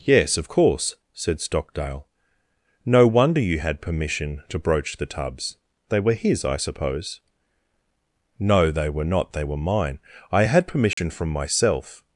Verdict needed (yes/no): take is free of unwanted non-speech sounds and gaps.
no